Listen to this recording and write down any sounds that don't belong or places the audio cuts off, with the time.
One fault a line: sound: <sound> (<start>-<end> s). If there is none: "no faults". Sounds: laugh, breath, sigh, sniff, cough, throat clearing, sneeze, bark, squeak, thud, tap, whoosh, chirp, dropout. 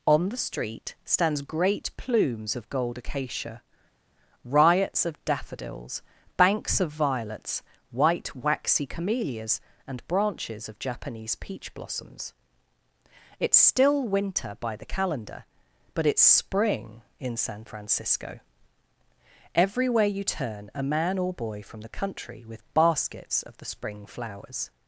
no faults